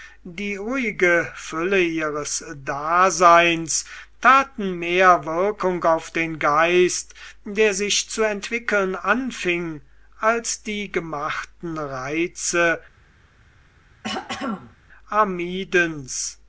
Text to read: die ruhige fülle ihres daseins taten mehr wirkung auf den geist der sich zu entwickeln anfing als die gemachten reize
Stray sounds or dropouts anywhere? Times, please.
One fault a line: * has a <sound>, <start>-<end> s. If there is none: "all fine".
* has a throat clearing, 14.0-14.8 s